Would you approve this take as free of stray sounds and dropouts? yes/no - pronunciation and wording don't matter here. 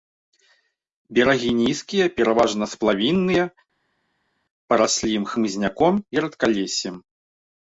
yes